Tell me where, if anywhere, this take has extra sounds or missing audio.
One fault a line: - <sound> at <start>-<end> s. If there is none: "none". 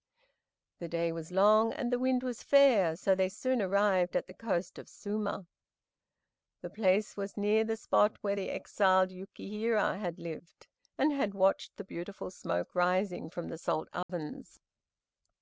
- dropout at 14.0-14.1 s